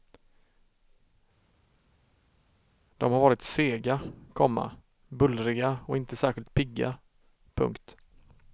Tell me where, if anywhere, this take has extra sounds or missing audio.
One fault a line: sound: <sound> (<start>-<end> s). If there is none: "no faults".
no faults